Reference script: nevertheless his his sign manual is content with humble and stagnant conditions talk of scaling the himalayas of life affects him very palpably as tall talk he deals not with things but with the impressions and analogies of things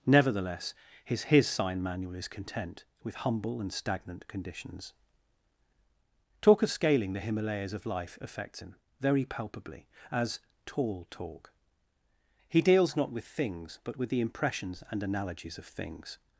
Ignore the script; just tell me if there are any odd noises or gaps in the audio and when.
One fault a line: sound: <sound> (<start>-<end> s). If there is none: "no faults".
no faults